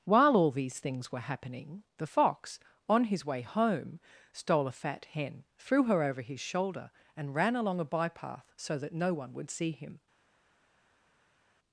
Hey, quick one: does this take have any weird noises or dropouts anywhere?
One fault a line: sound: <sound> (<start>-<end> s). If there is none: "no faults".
no faults